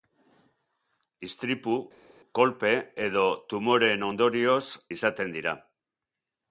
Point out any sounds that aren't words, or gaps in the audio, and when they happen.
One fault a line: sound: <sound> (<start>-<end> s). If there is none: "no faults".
no faults